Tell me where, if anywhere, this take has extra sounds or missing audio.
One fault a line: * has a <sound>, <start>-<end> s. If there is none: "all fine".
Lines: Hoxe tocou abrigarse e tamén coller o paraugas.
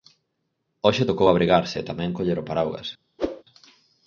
* has a whoosh, 3.2-3.4 s